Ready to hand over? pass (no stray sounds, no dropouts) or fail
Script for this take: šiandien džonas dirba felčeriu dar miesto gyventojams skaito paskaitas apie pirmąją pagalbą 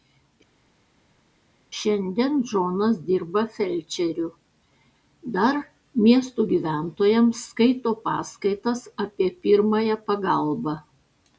pass